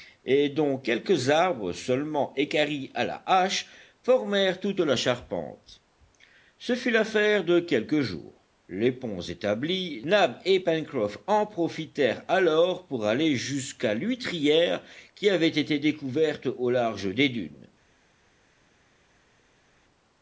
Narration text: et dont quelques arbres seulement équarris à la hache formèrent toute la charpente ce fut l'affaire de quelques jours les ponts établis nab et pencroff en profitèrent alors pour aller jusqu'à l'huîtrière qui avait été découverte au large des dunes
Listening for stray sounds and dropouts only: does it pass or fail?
pass